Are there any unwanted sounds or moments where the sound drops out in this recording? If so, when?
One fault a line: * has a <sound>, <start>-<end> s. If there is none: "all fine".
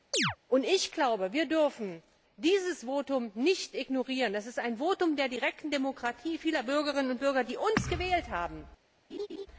* has a chirp, 0.1-0.4 s
* has a laugh, 9.1-9.5 s